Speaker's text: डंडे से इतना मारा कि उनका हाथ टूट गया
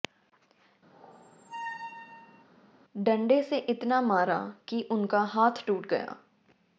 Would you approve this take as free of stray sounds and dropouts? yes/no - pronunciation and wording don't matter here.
no